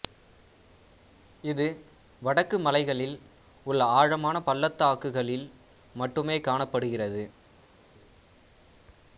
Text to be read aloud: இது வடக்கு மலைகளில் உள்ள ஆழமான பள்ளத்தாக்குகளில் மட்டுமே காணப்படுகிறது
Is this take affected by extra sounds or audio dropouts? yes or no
no